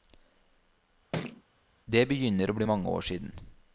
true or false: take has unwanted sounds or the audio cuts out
true